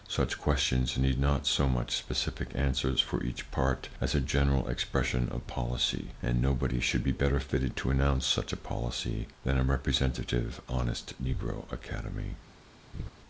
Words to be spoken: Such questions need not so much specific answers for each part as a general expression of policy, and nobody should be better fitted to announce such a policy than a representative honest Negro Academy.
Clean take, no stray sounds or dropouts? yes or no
no